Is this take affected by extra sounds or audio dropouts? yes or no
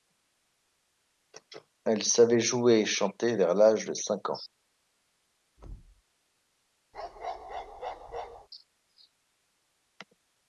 yes